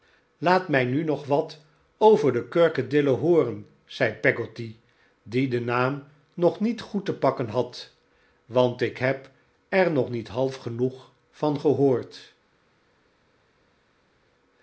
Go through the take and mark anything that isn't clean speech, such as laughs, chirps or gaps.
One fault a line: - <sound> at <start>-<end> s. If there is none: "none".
none